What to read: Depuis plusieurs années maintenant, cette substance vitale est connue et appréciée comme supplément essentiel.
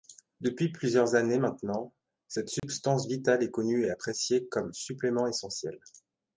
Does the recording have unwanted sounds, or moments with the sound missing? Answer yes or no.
yes